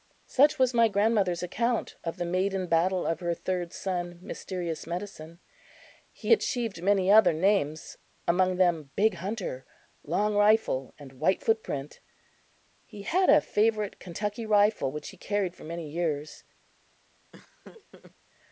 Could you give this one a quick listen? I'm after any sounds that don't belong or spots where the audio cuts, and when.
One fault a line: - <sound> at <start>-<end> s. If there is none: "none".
- laugh at 17.3-18.1 s